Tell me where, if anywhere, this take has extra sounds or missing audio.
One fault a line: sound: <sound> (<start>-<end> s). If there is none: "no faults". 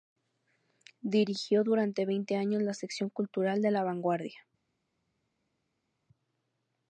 no faults